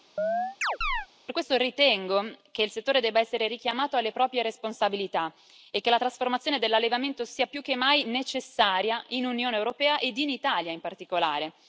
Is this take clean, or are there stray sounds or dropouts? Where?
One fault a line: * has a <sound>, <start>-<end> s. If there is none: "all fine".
* has a chirp, 0.2-1.1 s